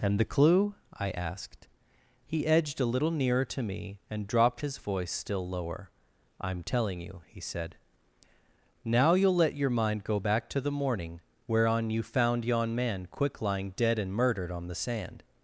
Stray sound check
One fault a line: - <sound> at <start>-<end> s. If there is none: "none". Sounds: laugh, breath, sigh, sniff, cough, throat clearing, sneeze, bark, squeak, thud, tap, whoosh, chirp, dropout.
none